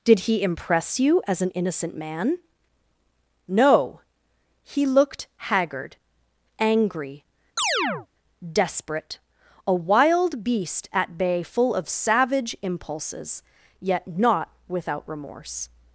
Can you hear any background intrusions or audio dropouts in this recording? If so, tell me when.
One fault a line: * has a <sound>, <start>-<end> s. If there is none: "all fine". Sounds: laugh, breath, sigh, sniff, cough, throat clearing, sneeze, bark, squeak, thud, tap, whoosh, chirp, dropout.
* has a chirp, 7.6-8.1 s